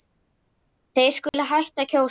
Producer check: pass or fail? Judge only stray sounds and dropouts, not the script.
fail